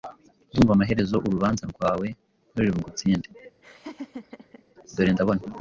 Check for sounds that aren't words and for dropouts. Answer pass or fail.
fail